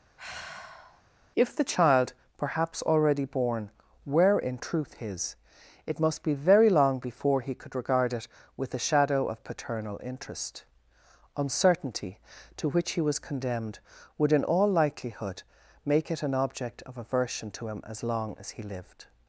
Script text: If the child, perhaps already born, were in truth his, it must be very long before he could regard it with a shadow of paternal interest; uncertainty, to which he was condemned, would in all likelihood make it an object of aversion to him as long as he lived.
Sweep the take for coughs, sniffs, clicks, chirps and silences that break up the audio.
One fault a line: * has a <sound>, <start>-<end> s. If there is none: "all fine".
* has a sigh, 0.2-1.0 s